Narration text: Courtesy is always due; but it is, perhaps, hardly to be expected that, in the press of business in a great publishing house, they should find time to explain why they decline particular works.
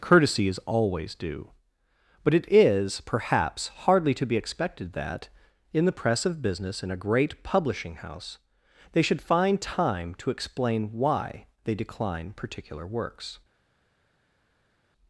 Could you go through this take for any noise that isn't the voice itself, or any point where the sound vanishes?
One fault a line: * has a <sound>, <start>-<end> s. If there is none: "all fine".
all fine